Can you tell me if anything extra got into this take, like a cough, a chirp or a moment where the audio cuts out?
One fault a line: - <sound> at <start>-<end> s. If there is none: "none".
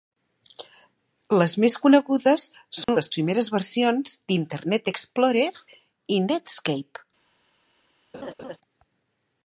- dropout at 2.8-2.9 s
- laugh at 8.1-8.6 s